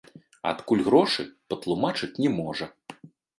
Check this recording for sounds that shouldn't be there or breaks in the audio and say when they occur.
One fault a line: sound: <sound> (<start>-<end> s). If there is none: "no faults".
no faults